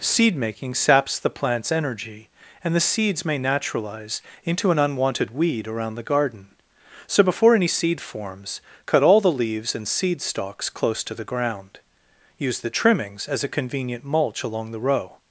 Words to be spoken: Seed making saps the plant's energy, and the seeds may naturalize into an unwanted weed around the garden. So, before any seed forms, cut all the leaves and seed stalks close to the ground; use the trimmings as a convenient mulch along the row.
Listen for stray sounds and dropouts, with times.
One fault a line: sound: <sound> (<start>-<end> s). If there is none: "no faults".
no faults